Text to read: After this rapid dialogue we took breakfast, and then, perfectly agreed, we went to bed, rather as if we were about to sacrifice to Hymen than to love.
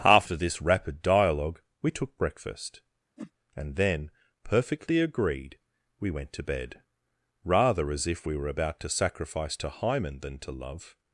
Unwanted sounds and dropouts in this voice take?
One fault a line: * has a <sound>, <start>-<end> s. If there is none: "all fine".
* has a whoosh, 3.2-3.3 s